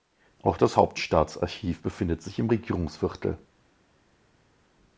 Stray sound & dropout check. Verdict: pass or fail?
pass